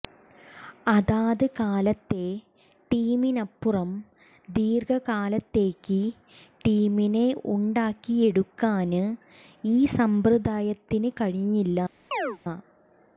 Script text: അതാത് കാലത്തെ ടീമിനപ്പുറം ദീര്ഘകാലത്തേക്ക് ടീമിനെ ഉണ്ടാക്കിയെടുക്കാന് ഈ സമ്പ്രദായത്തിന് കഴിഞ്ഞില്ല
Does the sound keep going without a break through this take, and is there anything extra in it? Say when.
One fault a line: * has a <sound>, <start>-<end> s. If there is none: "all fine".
* has a chirp, 12.1-12.4 s